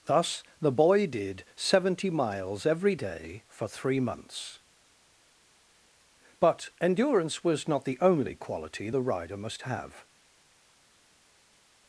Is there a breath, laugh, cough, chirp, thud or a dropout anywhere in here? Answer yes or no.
no